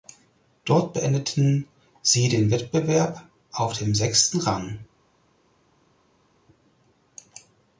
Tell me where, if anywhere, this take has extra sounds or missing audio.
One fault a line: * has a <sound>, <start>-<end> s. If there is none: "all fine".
all fine